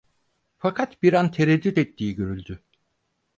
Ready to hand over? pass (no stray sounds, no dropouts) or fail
pass